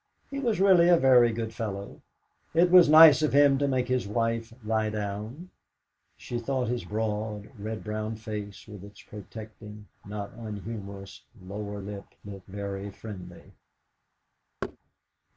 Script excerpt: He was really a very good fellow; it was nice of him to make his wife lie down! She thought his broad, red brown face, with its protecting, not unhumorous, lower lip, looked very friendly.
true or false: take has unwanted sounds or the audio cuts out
true